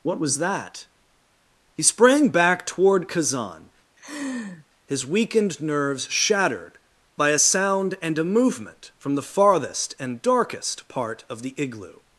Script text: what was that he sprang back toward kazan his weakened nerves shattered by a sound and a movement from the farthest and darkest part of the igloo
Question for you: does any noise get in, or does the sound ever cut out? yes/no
yes